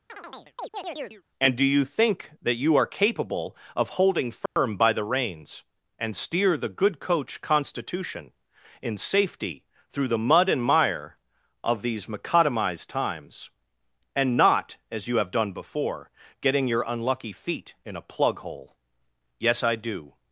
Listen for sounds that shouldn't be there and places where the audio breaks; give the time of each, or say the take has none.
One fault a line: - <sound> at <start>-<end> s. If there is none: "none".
- chirp at 0.1-1.2 s
- dropout at 4.5-4.6 s